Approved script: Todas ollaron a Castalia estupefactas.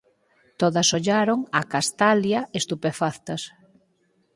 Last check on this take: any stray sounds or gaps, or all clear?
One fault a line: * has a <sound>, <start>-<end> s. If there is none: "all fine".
all fine